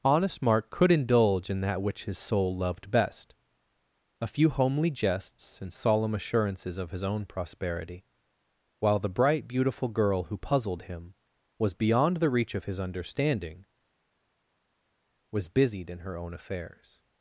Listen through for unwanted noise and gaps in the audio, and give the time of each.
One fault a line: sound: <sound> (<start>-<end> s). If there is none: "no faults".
no faults